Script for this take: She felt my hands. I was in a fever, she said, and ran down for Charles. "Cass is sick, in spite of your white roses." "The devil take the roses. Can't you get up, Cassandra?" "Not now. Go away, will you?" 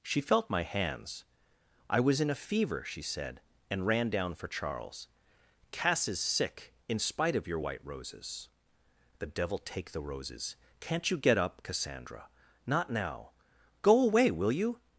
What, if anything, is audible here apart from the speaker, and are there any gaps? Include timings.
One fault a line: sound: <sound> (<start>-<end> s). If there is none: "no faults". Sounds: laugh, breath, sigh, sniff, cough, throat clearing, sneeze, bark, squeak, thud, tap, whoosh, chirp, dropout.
no faults